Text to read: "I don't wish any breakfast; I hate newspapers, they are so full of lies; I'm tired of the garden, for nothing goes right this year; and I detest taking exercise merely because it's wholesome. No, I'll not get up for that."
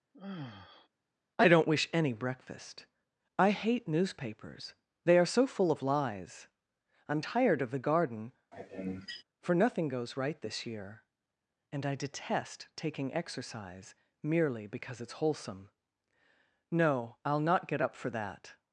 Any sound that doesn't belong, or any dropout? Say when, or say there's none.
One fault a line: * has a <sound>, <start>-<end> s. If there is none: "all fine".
* has a sigh, 0.1-0.9 s
* has a sneeze, 8.5-9.2 s